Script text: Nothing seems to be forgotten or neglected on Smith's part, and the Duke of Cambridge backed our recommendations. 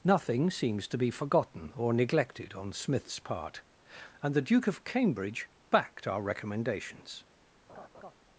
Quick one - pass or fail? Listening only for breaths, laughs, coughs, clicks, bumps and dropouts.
fail